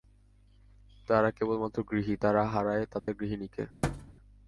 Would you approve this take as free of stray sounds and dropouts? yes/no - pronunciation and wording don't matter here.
no